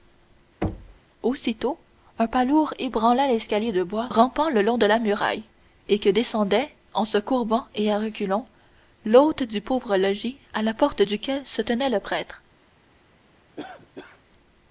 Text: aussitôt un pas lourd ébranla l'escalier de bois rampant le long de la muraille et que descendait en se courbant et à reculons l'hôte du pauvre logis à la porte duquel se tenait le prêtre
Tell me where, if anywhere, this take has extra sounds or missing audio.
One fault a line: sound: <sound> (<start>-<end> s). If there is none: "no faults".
sound: thud (0.6-1.0 s)
sound: cough (13.6-14.2 s)